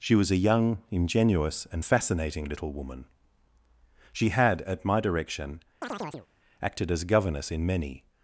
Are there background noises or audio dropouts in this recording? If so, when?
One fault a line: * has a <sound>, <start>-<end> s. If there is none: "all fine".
* has a chirp, 5.8-6.3 s